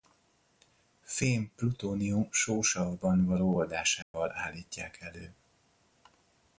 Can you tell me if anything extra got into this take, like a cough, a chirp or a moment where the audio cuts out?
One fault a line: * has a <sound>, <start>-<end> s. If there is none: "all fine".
* has a dropout, 4.0-4.1 s